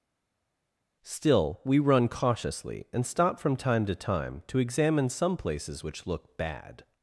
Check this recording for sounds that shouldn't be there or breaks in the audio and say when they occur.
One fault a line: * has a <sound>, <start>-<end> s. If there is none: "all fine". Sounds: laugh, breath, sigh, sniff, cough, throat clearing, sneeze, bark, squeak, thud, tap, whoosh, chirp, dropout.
all fine